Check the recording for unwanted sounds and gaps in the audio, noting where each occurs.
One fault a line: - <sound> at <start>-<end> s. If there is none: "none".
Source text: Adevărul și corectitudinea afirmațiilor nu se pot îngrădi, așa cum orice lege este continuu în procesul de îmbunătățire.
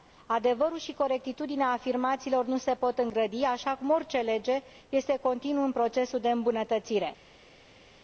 none